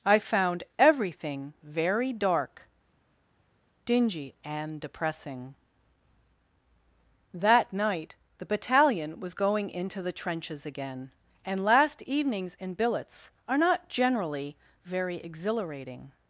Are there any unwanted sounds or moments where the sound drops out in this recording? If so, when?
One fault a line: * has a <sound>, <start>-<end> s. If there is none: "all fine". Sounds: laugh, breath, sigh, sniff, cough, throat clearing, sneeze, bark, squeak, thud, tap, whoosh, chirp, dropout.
all fine